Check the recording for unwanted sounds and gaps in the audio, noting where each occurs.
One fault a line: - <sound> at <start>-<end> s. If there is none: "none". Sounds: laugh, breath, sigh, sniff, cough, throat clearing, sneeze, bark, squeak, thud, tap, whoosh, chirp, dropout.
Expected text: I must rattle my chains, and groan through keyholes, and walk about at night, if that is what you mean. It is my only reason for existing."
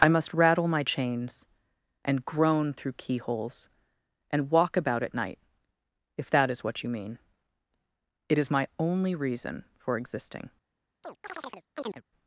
- chirp at 11.0-12.0 s